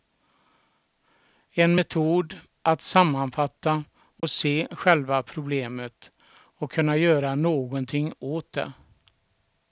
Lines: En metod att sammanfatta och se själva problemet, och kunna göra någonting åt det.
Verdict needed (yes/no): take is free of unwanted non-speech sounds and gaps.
no